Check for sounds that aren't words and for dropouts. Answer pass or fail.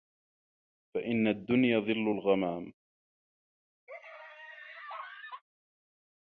fail